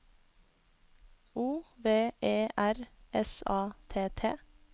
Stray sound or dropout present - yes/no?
no